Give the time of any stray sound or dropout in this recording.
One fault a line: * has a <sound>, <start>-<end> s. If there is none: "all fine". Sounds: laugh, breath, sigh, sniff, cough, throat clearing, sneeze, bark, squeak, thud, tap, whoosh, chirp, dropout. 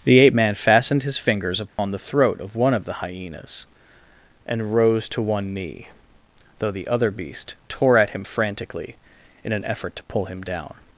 * has a dropout, 1.7-1.8 s